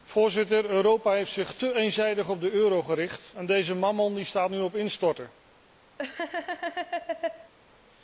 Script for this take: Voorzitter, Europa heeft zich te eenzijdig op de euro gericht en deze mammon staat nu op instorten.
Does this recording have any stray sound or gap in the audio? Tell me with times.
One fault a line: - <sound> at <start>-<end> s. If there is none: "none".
- laugh at 6.0-7.5 s